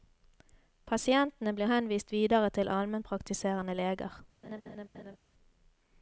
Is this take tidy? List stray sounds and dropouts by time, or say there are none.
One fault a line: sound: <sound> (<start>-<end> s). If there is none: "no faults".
sound: laugh (4.4-5.2 s)